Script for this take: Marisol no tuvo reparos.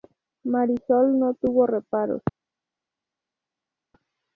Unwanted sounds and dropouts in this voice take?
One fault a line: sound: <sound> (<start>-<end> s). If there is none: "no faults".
no faults